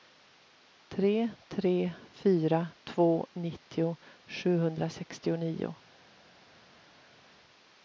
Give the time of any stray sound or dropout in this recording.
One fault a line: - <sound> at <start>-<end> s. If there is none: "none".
none